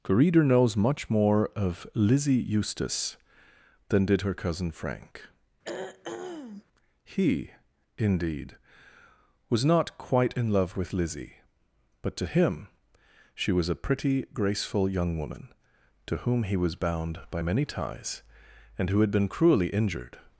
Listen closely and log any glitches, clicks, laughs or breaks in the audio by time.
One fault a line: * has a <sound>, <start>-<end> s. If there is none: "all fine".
* has a throat clearing, 5.6-6.6 s